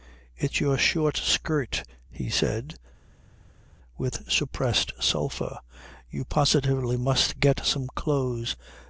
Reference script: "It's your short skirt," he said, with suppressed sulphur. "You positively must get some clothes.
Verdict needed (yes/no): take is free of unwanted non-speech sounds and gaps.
yes